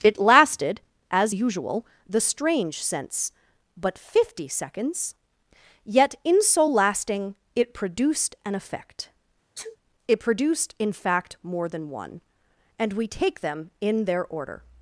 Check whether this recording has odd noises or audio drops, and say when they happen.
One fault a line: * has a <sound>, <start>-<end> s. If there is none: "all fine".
* has a sneeze, 9.6-9.8 s